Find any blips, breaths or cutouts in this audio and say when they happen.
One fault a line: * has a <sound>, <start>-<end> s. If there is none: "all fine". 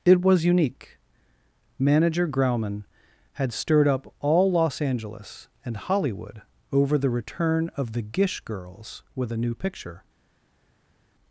all fine